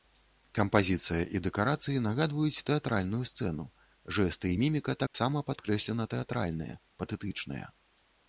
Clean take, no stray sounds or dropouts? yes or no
no